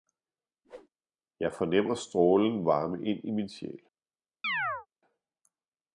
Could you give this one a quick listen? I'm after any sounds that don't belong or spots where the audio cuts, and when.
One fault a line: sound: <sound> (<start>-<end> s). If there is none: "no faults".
sound: whoosh (0.6-0.9 s)
sound: chirp (4.4-4.9 s)